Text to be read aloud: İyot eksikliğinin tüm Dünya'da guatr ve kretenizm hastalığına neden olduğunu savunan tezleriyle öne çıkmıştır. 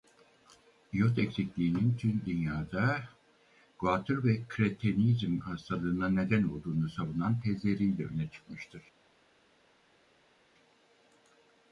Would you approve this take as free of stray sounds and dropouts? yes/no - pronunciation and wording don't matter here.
yes